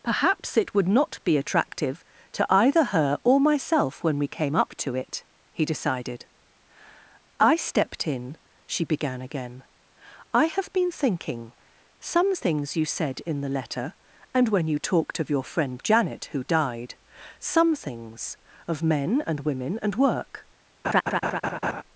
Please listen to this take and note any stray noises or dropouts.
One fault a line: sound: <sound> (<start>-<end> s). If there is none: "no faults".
sound: laugh (20.8-21.8 s)